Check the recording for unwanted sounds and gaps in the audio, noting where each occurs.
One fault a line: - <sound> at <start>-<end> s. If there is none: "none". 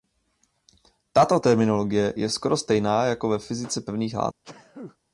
- sneeze at 4.4-5.0 s